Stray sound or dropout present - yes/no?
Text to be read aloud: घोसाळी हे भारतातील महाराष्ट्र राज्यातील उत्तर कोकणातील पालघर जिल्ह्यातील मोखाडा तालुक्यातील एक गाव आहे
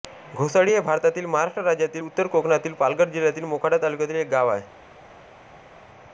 no